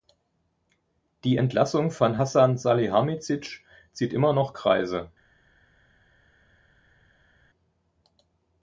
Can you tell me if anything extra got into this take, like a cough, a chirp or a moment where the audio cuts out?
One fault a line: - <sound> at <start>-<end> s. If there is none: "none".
none